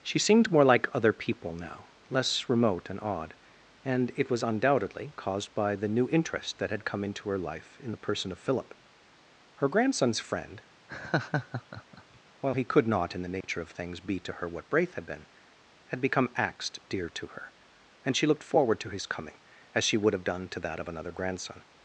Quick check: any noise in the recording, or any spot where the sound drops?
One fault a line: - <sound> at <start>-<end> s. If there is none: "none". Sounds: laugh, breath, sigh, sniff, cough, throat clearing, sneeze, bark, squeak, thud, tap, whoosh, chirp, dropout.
- laugh at 10.9-12.2 s
- dropout at 13.4-13.4 s